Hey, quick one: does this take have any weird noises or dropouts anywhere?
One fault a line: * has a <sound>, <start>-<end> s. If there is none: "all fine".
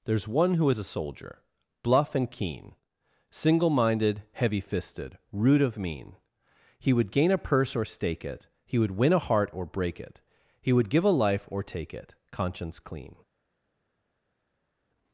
all fine